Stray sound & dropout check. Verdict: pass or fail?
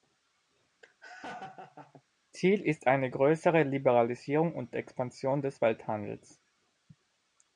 fail